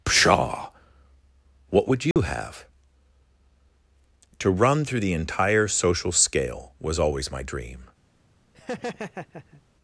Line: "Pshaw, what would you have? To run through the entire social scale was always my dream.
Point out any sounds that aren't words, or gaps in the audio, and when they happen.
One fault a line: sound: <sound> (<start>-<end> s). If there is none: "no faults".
sound: dropout (2.1-2.2 s)
sound: laugh (8.5-9.6 s)